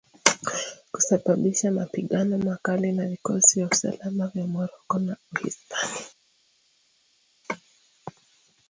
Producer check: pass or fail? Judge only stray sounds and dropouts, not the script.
pass